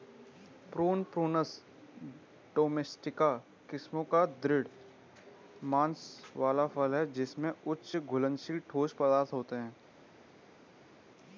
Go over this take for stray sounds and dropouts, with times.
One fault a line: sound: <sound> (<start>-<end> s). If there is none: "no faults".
no faults